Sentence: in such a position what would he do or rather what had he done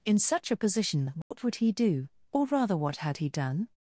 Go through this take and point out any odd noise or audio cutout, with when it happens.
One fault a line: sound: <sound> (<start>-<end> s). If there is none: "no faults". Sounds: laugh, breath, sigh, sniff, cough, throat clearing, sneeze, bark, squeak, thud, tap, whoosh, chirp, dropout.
sound: dropout (1.2-1.3 s)